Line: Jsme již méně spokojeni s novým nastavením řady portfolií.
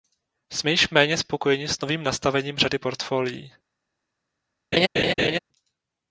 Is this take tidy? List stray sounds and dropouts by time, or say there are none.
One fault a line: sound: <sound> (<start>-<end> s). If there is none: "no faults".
sound: laugh (4.7-5.4 s)